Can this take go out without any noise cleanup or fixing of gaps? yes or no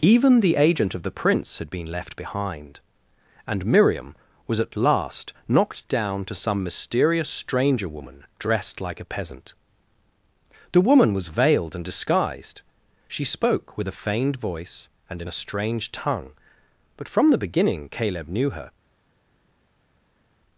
yes